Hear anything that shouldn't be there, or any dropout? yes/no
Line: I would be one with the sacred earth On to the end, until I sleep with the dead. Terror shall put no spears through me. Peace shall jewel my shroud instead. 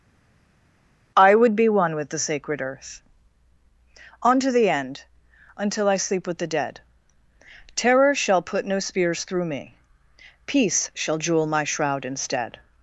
no